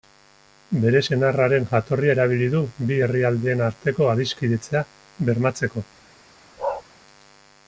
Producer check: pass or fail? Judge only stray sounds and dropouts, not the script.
fail